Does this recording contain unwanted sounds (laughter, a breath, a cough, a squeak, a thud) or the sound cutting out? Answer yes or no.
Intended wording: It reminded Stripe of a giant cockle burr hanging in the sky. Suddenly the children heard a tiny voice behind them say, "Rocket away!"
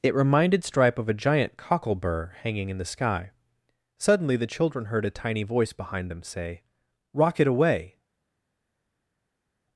no